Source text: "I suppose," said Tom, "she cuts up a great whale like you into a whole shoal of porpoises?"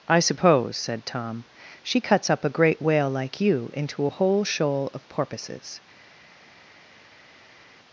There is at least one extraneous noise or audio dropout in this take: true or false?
false